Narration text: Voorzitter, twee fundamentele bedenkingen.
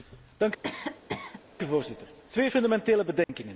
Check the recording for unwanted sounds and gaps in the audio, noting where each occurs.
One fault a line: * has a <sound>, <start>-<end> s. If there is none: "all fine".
* has a cough, 0.6-1.4 s
* has a dropout, 3.2-3.3 s